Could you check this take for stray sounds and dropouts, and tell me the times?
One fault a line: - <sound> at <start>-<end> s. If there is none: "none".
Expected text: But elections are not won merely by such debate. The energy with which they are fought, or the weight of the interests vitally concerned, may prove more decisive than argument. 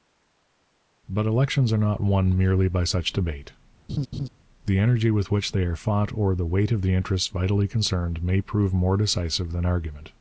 - laugh at 3.9-4.3 s